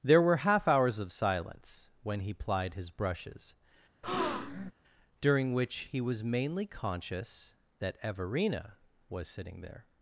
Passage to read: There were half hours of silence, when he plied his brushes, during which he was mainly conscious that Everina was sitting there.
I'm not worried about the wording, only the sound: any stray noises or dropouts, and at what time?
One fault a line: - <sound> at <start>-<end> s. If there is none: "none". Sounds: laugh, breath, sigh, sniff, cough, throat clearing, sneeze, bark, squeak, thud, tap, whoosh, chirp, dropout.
- breath at 4.0-4.7 s